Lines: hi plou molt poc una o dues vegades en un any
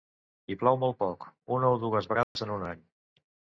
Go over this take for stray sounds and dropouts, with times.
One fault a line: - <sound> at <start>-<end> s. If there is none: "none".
- dropout at 2.2-2.4 s